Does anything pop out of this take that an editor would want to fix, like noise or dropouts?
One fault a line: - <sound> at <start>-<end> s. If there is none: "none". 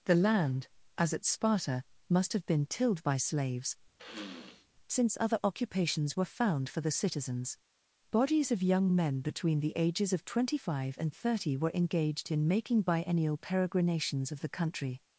- sniff at 4.0-4.7 s